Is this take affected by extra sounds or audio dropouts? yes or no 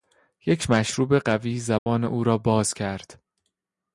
yes